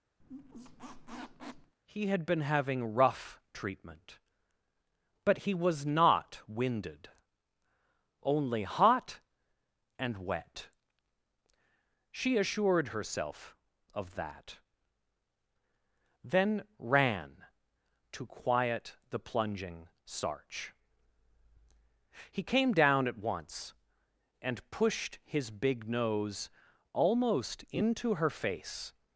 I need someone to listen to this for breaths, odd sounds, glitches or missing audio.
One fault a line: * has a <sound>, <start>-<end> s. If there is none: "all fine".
* has a squeak, 0.2-1.7 s